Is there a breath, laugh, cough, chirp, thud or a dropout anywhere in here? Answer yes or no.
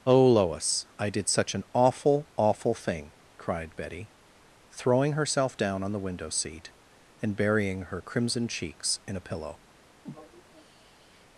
yes